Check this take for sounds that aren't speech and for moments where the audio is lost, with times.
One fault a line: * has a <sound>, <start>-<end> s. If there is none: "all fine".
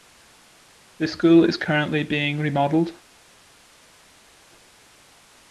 all fine